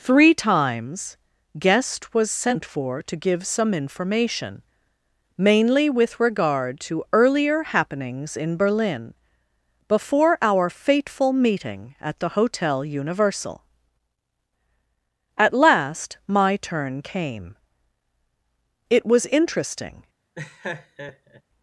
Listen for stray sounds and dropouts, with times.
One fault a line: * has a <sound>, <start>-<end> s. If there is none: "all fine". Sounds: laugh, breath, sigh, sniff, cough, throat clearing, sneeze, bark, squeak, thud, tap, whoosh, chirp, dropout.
* has a laugh, 20.3-21.4 s